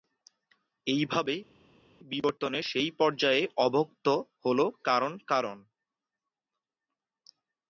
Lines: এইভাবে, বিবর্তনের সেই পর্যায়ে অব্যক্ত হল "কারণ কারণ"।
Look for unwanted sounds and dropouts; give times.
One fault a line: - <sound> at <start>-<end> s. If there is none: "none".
none